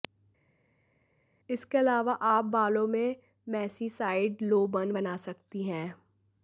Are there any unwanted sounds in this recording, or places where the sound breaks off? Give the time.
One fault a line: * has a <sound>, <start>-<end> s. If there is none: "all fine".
all fine